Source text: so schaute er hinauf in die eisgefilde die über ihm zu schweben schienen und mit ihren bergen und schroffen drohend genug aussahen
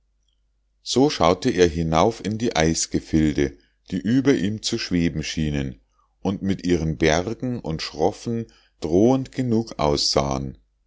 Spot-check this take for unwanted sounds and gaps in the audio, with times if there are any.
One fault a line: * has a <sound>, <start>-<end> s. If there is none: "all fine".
all fine